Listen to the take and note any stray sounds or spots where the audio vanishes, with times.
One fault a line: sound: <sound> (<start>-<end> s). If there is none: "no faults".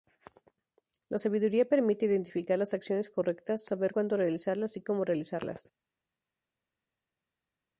no faults